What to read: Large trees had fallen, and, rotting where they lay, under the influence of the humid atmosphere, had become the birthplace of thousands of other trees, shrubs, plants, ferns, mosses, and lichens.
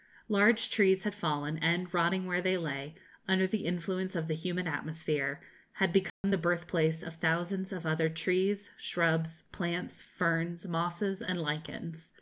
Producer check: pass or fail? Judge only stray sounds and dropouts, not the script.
fail